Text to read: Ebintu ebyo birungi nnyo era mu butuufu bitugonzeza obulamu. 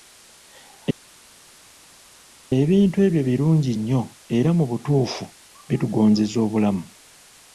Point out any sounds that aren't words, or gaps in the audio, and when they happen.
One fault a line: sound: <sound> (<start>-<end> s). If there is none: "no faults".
no faults